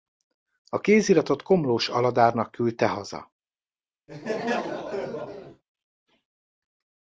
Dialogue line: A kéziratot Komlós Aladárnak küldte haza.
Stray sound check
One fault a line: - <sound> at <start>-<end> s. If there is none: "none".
- laugh at 4.1-5.6 s